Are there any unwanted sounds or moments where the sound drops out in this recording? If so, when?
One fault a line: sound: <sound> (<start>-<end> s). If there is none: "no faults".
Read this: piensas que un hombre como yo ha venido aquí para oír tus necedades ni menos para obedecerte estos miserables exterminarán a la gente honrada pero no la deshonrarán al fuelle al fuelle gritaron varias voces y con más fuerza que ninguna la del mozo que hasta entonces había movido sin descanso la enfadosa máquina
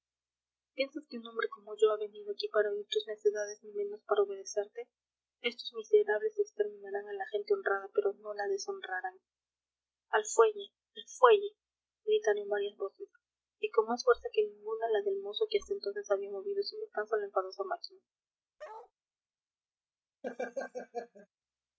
sound: bark (18.6-18.9 s)
sound: laugh (20.2-21.3 s)